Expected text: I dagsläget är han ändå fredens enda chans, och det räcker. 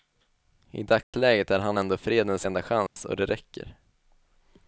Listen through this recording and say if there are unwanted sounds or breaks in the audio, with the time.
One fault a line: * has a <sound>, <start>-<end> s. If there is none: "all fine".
* has a dropout, 1.0-1.1 s
* has a dropout, 2.9-3.0 s